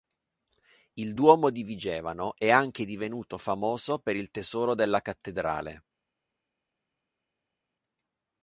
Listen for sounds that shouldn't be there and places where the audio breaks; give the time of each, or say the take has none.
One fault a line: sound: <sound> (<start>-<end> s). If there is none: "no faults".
no faults